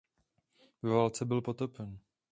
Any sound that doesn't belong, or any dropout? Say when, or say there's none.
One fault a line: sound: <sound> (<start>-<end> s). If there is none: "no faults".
no faults